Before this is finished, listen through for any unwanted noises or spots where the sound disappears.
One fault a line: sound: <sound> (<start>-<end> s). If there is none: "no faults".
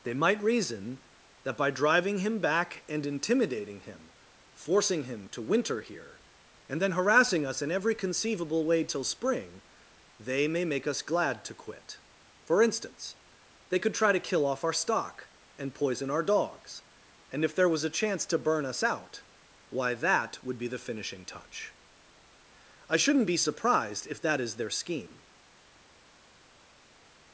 no faults